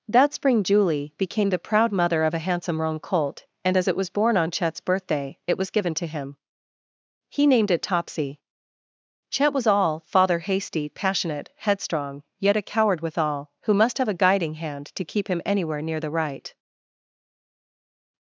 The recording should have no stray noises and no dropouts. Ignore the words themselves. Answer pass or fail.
pass